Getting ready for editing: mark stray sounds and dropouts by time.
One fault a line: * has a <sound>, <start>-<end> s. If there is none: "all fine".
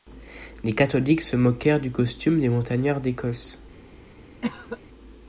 * has a cough, 4.4-4.8 s